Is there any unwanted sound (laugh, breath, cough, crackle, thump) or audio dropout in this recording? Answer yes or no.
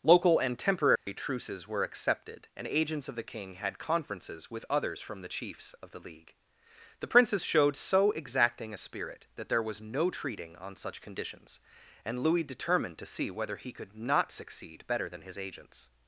yes